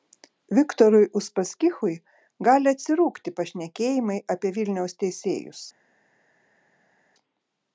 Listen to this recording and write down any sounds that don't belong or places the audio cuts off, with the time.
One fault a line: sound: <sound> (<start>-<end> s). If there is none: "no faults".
no faults